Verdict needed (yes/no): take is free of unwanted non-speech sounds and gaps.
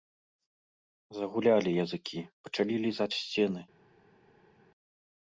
yes